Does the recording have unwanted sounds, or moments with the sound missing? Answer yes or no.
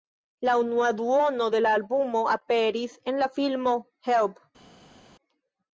no